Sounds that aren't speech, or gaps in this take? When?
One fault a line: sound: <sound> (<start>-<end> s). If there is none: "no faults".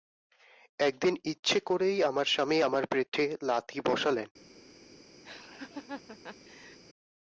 sound: laugh (5.2-6.8 s)